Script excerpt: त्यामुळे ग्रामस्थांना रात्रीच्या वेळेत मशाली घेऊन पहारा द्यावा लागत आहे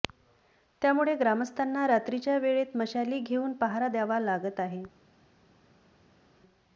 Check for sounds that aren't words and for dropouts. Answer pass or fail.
pass